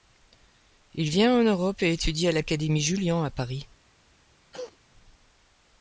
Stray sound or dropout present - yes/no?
yes